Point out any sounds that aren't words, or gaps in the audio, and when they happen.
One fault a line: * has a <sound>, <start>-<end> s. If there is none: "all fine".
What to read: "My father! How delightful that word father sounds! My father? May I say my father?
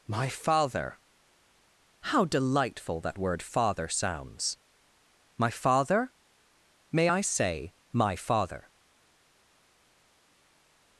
all fine